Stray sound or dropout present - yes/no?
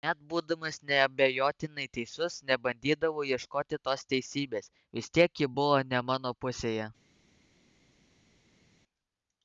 no